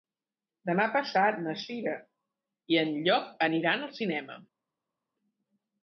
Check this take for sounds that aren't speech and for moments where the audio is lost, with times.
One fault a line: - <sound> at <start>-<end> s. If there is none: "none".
none